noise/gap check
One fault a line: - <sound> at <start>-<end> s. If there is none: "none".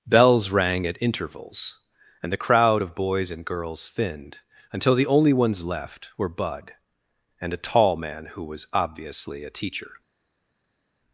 none